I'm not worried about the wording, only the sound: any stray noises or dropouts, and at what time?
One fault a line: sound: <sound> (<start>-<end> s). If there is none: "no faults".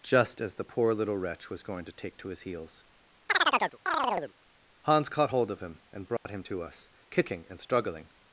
sound: chirp (3.3-4.3 s)
sound: dropout (6.2-6.3 s)